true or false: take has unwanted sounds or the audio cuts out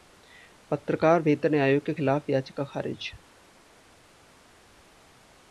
false